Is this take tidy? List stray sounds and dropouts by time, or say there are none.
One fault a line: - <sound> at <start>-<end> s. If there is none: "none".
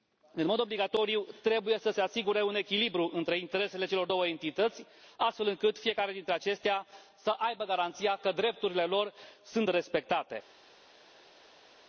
none